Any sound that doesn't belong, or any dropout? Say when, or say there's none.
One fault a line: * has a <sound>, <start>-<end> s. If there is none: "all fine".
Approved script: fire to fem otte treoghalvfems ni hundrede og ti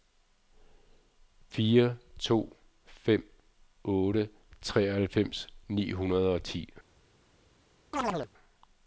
* has a chirp, 7.9-8.3 s